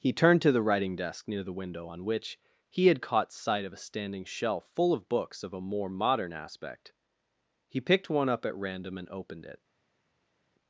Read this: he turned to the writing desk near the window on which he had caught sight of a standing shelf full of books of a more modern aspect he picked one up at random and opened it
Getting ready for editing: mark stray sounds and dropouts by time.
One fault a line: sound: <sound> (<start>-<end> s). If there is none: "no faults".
no faults